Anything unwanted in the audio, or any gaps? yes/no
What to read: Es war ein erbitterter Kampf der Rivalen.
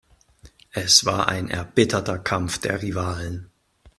no